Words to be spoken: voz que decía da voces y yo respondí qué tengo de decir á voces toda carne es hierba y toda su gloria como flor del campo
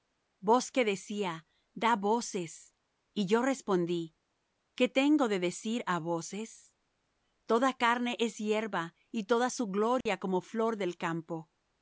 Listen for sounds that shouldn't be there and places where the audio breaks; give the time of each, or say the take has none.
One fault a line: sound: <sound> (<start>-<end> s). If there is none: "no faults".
sound: dropout (10.0-10.1 s)